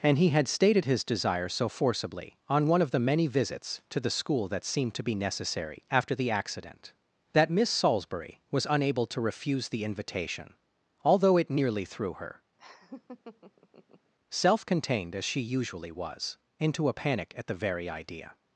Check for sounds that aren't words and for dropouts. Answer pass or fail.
fail